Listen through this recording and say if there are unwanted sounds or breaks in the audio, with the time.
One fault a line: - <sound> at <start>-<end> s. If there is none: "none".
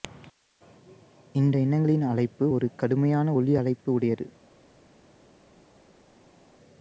none